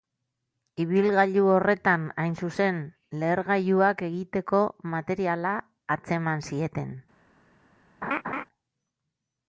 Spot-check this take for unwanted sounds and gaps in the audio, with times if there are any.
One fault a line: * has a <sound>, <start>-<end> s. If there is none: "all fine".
* has a laugh, 8.0-8.4 s